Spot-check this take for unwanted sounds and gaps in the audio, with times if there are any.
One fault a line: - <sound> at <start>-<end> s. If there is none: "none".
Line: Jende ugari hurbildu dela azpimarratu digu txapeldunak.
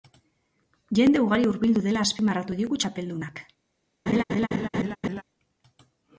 - laugh at 4.1-5.2 s